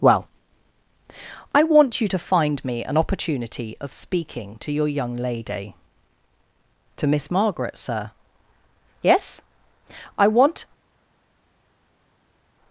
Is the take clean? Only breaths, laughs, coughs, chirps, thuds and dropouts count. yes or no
yes